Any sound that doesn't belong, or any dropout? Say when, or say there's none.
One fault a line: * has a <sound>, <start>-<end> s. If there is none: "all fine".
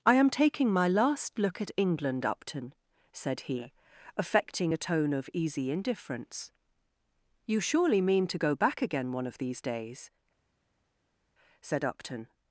all fine